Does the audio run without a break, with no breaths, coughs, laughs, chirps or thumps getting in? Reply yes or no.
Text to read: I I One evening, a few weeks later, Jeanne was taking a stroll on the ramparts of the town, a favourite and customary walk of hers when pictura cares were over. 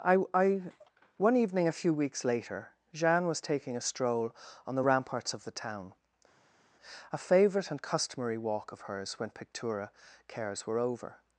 yes